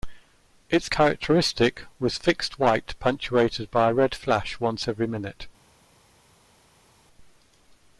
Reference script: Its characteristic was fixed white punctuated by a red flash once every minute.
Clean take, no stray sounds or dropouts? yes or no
yes